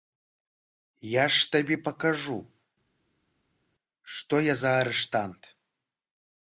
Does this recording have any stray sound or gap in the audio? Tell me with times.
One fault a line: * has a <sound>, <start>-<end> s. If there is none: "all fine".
all fine